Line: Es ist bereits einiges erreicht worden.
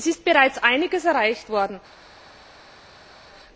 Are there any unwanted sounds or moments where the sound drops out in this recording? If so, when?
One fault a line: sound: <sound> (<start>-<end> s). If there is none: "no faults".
no faults